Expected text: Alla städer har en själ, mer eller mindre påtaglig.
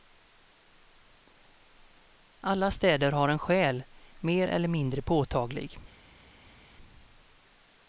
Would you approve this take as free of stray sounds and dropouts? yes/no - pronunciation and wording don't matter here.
yes